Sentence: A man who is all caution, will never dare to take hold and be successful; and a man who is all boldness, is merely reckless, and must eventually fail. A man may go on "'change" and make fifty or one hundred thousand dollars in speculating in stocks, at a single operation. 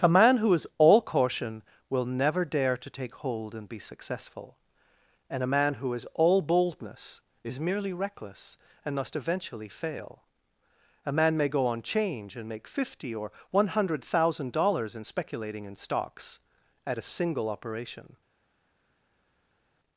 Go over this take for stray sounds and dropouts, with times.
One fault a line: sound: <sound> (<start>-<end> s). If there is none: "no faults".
no faults